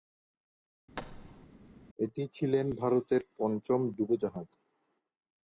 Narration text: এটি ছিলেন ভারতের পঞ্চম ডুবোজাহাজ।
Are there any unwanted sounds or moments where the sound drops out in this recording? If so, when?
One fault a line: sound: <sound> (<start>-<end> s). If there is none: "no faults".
sound: thud (1.0-1.5 s)